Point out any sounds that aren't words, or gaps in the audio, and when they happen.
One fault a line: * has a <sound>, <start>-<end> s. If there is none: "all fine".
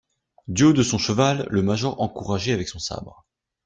all fine